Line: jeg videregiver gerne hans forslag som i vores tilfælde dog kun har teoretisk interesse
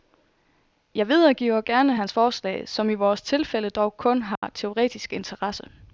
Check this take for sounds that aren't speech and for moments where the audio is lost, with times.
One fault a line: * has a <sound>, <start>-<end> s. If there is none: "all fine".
* has a dropout, 4.4-4.4 s